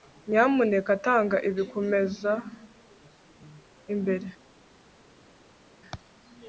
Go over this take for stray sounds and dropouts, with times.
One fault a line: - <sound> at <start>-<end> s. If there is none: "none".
none